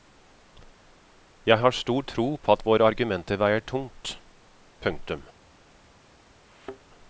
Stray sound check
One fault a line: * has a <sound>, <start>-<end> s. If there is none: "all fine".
* has a thud, 6.5-6.8 s